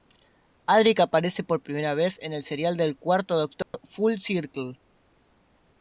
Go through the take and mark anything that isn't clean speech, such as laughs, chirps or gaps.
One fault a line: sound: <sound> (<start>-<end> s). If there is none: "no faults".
sound: dropout (3.6-3.7 s)